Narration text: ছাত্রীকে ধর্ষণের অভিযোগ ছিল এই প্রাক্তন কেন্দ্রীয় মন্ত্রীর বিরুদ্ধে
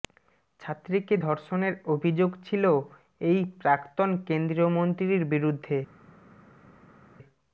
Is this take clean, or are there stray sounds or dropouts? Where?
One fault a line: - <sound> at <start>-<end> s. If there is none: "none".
none